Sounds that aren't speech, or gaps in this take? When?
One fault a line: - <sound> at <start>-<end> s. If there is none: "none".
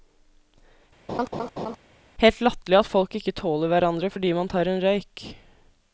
- laugh at 1.1-1.8 s